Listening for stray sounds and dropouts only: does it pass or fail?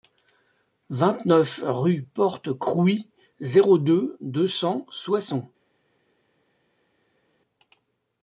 pass